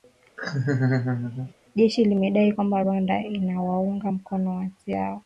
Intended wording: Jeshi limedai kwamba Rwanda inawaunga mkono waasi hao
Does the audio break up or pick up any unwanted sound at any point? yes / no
yes